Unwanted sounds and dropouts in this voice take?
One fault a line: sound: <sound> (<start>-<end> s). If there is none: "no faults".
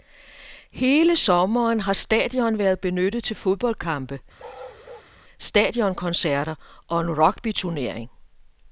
sound: bark (4.4-5.1 s)